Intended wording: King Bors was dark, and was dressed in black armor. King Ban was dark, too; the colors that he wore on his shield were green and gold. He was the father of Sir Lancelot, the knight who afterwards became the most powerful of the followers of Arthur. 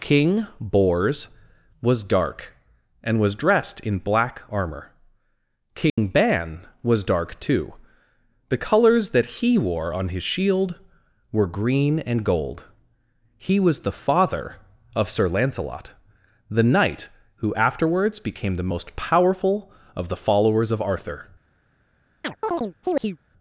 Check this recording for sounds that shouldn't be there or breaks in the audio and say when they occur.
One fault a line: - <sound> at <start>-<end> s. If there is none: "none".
- dropout at 5.9-6.0 s
- chirp at 22.2-23.2 s